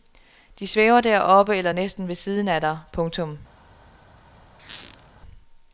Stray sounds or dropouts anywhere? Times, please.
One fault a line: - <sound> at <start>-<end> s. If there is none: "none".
- squeak at 4.6-5.1 s